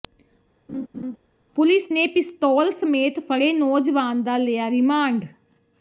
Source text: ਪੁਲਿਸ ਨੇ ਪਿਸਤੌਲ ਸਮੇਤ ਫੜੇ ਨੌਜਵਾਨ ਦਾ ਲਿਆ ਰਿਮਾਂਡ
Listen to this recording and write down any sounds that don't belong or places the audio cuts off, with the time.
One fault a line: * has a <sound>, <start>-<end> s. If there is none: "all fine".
* has a laugh, 0.7-1.2 s